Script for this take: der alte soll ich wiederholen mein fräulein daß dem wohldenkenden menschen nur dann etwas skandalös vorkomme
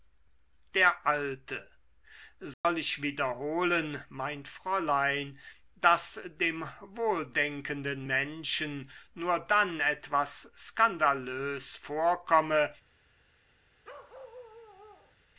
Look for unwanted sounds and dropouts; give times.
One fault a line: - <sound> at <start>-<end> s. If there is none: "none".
- dropout at 2.5-2.6 s
- bark at 13.8-15.2 s